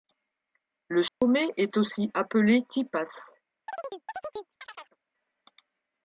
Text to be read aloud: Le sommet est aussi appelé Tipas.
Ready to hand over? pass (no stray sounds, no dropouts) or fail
fail